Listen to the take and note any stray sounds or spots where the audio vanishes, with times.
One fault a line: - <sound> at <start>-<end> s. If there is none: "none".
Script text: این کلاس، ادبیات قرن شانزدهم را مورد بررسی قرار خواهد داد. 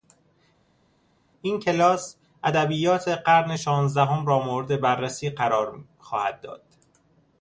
none